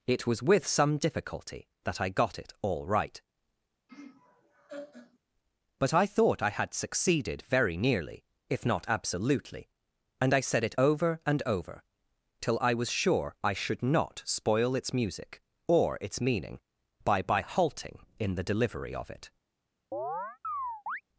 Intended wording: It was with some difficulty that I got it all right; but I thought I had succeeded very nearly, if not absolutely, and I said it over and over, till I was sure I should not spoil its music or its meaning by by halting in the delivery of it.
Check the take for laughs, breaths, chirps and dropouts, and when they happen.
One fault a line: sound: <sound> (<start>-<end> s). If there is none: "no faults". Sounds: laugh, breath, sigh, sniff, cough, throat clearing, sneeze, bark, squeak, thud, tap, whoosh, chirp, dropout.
sound: laugh (3.9-5.2 s)
sound: chirp (19.9-21.0 s)